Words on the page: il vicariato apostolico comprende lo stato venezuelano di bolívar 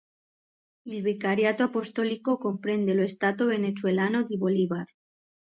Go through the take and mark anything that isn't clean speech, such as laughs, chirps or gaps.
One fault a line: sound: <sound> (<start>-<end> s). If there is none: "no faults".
no faults